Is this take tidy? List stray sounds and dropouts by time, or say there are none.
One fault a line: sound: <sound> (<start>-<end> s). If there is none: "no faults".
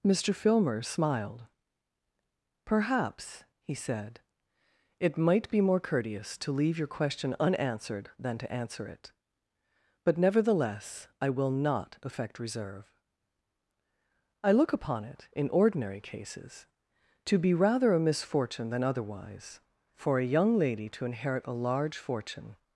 no faults